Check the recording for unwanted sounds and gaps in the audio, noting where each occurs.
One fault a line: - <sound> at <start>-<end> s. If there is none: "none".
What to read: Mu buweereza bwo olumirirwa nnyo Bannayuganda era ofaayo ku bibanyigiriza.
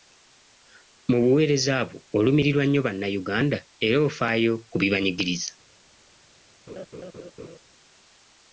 - laugh at 6.7-7.6 s